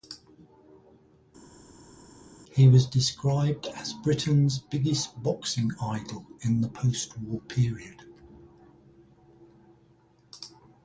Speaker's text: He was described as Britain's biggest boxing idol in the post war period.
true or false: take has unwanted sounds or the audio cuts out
false